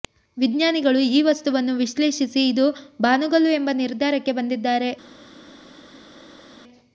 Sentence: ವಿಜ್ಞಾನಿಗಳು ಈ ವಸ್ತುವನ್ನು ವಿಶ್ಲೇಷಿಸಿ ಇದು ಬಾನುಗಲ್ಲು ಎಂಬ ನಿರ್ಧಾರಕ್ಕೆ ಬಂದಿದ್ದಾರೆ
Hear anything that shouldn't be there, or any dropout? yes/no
no